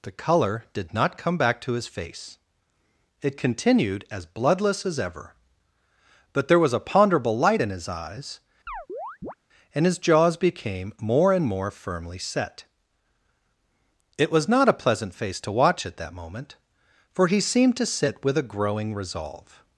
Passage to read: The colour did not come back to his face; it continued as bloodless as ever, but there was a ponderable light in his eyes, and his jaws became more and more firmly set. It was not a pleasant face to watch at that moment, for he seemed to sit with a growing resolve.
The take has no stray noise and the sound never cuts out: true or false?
false